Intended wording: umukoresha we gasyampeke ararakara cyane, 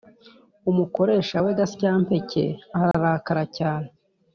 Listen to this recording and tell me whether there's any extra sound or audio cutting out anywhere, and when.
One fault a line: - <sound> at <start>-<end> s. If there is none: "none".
- dropout at 2.9-2.9 s